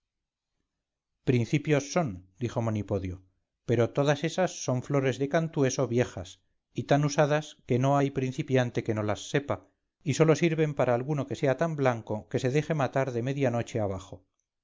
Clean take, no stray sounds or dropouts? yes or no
yes